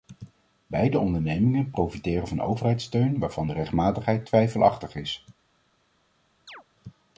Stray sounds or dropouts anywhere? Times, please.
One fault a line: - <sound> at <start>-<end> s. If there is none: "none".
- chirp at 6.5-6.6 s